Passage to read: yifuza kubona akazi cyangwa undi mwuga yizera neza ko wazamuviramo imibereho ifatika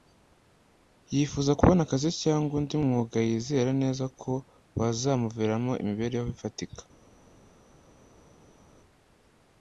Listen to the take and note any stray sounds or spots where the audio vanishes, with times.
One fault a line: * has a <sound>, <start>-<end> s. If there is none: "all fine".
all fine